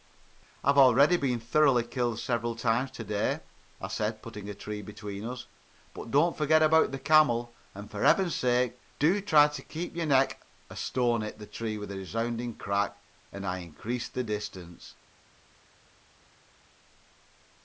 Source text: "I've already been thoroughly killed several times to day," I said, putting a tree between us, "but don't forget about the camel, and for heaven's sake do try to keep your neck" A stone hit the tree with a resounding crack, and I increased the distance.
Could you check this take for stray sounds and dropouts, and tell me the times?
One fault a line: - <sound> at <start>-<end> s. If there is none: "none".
none